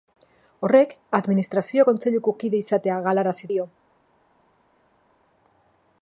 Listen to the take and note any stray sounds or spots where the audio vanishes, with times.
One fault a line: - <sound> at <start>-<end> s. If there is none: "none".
none